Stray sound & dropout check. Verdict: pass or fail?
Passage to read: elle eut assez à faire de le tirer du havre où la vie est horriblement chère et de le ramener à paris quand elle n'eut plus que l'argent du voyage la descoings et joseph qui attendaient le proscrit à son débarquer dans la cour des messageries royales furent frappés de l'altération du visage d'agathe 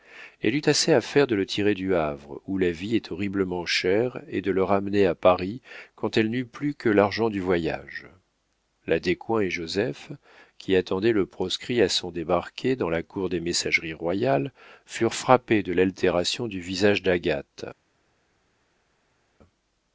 pass